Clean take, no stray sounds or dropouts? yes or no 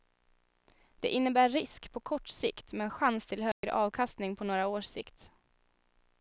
no